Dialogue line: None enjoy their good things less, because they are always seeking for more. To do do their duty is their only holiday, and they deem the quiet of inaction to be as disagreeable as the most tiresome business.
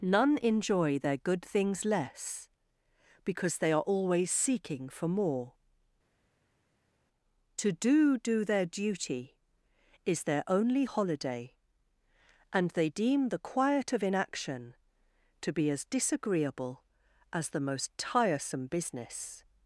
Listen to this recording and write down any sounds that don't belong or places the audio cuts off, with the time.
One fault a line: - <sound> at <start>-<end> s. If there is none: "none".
none